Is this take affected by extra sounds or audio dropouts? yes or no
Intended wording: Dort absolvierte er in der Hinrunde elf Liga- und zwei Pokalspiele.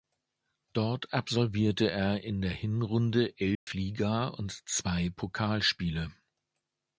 yes